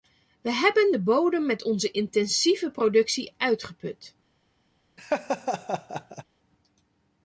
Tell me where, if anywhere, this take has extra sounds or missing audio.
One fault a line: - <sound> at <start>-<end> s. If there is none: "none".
- laugh at 5.0-6.2 s